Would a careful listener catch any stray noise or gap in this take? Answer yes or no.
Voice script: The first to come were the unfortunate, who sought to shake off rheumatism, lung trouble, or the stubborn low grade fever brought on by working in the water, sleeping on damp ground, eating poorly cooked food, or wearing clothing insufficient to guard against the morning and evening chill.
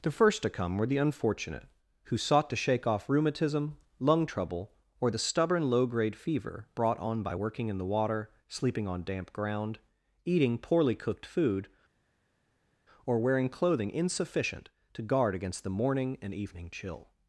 no